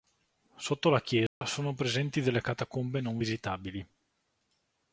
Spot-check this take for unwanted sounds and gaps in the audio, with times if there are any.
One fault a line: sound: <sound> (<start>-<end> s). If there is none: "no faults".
sound: dropout (1.3-1.4 s)